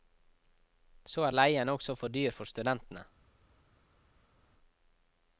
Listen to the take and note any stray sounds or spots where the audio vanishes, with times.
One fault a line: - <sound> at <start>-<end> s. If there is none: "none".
none